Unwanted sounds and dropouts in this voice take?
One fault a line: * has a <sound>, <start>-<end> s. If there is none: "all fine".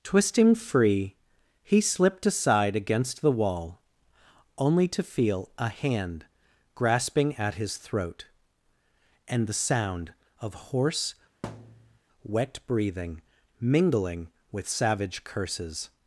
* has a thud, 11.4-12.0 s